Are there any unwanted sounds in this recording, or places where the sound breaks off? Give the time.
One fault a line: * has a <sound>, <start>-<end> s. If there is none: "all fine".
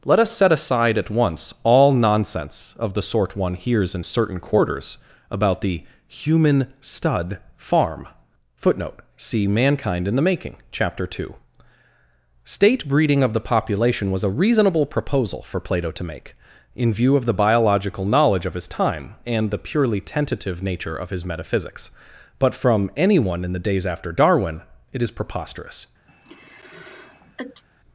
* has a sneeze, 26.1-27.6 s